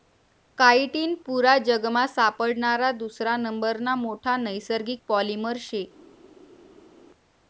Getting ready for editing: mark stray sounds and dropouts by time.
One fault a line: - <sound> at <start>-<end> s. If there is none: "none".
none